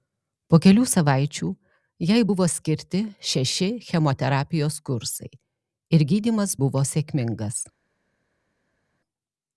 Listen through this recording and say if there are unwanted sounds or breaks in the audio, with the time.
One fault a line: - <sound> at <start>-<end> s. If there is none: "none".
none